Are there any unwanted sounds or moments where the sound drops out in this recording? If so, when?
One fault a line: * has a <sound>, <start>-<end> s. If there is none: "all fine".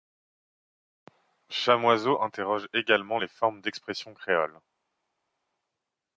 all fine